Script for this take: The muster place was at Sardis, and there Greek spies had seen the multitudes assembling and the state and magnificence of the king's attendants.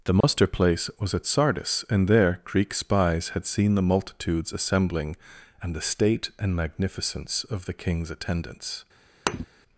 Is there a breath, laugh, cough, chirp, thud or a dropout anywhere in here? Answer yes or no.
yes